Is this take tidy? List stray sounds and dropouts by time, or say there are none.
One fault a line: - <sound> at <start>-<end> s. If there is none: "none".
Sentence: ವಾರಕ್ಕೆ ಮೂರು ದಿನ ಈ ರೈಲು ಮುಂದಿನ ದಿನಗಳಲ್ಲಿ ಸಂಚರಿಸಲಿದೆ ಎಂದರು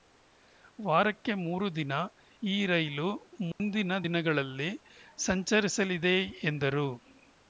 - dropout at 3.5-3.6 s